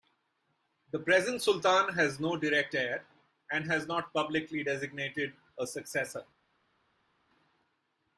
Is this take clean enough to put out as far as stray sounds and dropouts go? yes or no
yes